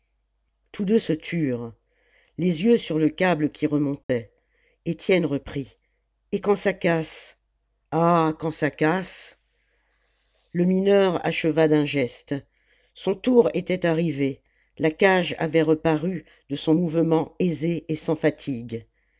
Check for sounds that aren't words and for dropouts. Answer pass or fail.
fail